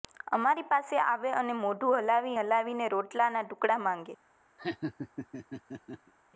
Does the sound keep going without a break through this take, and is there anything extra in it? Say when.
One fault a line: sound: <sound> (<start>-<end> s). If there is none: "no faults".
sound: laugh (4.6-6.1 s)